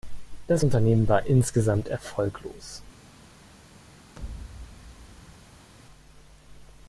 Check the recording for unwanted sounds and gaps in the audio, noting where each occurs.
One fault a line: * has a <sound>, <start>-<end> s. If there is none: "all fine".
* has a thud, 4.2-5.7 s